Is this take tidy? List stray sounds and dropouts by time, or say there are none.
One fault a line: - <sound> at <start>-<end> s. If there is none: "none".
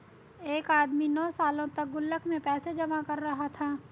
none